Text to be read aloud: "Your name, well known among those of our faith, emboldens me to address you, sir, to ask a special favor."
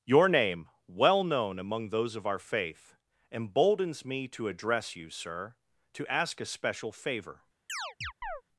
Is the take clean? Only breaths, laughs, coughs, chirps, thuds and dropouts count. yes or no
no